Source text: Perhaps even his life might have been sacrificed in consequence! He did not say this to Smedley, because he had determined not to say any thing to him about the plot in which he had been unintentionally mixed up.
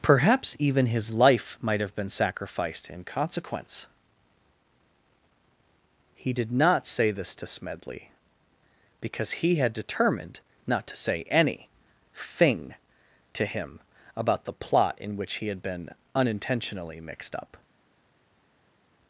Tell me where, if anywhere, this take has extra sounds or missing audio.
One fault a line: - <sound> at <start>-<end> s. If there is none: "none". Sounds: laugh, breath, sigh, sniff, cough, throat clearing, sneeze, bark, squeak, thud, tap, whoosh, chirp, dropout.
none